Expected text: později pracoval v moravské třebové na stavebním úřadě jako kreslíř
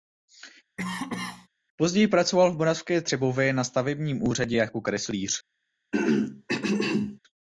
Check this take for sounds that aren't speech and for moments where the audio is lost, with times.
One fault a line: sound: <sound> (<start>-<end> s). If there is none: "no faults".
sound: cough (0.8-1.5 s)
sound: throat clearing (5.9-7.2 s)